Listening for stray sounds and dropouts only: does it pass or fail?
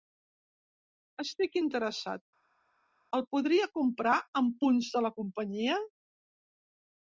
pass